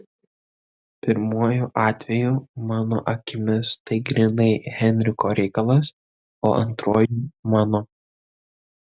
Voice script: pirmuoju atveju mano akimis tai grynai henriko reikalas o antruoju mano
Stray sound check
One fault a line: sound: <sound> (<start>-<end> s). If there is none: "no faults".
no faults